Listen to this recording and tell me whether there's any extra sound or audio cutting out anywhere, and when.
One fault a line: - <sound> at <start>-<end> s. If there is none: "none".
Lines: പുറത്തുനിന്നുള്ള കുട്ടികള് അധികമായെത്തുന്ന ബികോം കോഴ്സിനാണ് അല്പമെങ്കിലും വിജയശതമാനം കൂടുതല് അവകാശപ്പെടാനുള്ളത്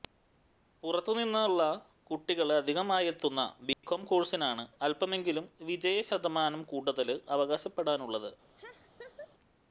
- dropout at 3.7-3.8 s
- laugh at 8.6-9.3 s